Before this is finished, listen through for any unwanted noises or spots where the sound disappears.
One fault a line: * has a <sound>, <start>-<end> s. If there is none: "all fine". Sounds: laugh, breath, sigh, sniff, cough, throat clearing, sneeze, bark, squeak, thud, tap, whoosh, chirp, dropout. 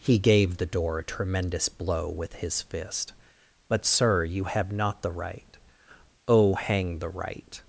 all fine